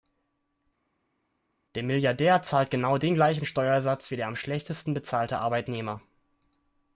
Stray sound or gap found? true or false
false